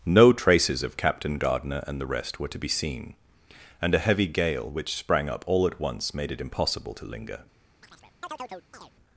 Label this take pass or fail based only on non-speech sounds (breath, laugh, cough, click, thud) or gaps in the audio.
fail